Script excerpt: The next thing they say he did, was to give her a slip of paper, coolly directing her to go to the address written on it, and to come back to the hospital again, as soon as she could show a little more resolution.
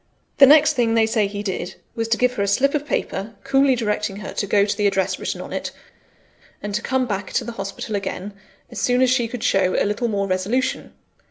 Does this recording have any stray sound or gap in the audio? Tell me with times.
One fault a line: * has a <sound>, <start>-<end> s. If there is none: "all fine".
all fine